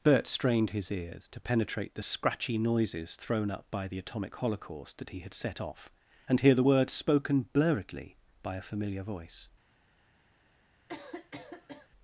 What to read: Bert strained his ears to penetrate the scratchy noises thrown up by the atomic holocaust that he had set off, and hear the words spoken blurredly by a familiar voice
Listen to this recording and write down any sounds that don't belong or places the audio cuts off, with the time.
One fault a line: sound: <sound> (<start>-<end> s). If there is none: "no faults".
sound: cough (10.9-11.9 s)